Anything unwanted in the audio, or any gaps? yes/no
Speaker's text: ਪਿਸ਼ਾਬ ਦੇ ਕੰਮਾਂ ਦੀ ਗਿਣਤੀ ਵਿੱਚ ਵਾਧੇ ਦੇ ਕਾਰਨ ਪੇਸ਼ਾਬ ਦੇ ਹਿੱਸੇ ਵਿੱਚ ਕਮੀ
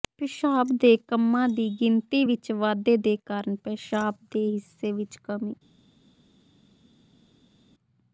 no